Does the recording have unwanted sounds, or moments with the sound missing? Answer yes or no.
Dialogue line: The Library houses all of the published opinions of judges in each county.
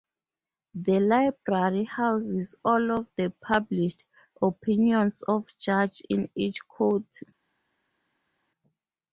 no